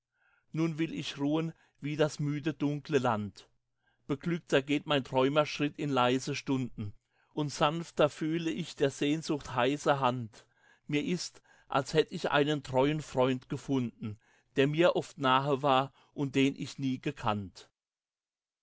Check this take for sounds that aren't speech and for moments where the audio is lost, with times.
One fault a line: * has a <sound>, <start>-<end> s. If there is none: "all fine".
all fine